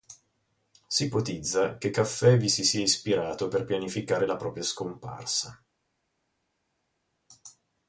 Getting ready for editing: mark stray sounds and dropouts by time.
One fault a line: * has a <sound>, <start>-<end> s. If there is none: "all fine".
all fine